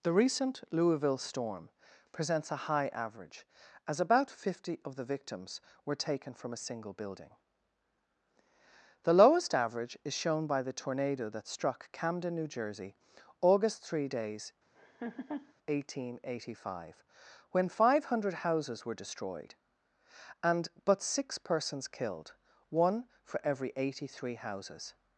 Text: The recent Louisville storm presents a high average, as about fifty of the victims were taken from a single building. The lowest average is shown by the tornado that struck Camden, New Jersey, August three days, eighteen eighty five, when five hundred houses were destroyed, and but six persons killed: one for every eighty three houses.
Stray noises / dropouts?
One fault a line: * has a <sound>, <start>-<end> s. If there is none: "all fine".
* has a laugh, 14.7-15.5 s